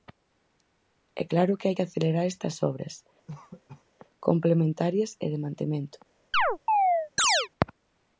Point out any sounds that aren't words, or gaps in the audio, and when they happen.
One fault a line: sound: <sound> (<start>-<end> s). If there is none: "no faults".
sound: cough (3.3-3.8 s)
sound: chirp (6.3-7.5 s)